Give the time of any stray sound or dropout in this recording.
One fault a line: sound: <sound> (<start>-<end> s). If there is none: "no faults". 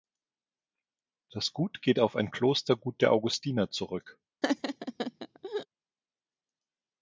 sound: laugh (4.4-5.7 s)